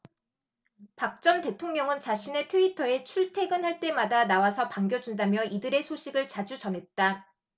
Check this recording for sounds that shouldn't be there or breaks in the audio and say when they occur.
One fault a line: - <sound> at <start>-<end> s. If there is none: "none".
none